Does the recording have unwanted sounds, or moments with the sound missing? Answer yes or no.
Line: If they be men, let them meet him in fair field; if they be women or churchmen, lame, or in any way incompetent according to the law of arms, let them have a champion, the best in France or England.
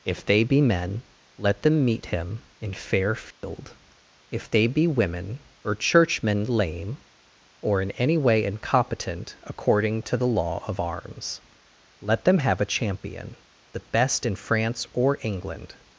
yes